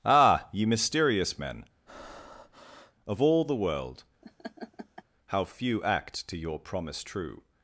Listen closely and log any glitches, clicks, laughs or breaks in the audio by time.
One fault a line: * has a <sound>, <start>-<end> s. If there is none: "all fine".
* has a breath, 1.9-2.9 s
* has a laugh, 4.2-5.0 s